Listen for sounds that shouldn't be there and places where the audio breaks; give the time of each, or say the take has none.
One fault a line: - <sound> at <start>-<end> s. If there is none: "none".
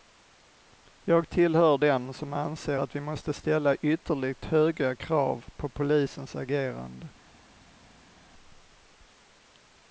none